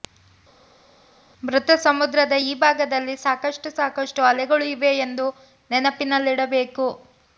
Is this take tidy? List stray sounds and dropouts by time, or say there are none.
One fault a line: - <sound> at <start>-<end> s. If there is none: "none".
none